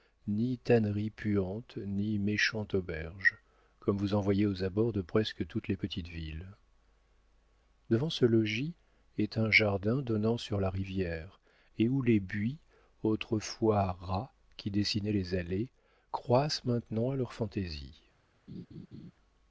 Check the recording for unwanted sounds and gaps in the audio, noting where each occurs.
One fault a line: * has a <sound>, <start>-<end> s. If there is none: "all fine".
* has a laugh, 18.5-19.1 s